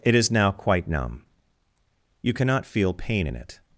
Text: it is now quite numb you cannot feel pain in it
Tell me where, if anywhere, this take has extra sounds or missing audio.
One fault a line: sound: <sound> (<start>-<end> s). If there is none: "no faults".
no faults